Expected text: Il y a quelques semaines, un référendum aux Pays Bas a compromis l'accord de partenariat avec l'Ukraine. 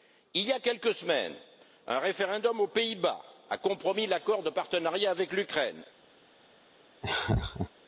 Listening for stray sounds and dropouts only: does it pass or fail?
fail